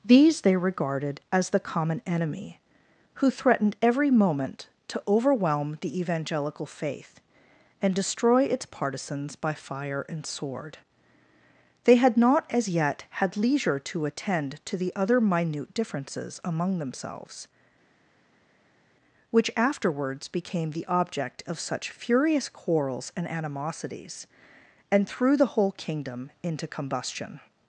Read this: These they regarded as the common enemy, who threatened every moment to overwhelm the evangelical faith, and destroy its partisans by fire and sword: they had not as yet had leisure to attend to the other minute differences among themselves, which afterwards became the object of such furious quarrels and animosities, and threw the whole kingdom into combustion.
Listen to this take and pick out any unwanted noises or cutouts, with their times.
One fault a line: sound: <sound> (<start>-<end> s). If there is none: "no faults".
no faults